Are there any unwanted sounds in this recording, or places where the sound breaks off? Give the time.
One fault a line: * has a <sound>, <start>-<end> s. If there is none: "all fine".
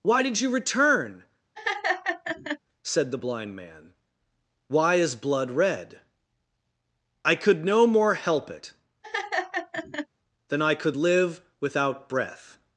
* has a laugh, 1.6-2.6 s
* has a laugh, 9.0-10.1 s